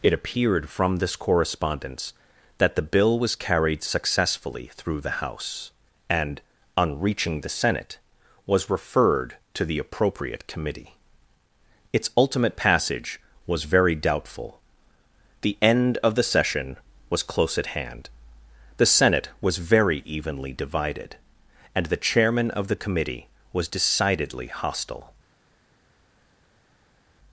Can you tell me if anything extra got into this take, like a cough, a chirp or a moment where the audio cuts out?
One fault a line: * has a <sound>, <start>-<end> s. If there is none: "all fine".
all fine